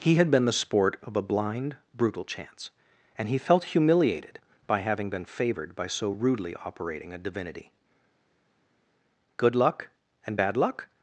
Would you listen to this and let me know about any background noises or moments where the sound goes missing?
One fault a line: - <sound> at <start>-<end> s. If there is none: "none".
none